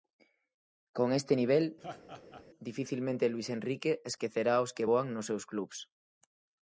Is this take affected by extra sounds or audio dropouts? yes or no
yes